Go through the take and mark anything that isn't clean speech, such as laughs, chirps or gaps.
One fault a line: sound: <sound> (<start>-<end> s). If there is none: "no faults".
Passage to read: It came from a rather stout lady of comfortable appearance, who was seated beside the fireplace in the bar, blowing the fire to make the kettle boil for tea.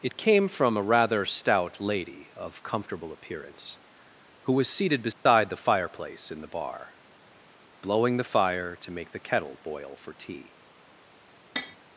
sound: dropout (5.1-5.3 s)
sound: tap (11.6-11.8 s)